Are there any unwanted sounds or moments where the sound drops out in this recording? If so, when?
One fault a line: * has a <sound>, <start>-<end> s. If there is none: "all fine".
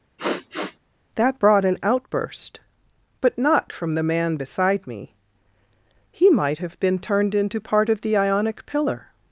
* has a sniff, 0.2-0.8 s